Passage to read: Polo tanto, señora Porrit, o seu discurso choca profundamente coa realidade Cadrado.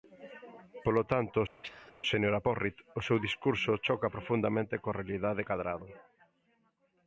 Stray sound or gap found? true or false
true